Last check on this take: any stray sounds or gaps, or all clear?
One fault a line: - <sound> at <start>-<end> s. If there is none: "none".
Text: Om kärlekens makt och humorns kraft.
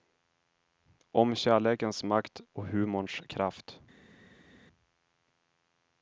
none